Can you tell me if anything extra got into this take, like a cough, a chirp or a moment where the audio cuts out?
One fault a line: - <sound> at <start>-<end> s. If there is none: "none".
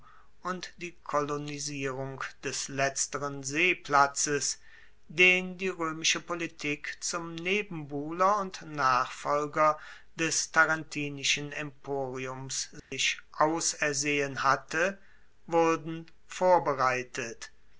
- dropout at 12.8-12.9 s